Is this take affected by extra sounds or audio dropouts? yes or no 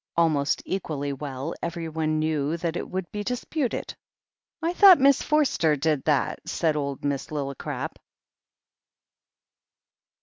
no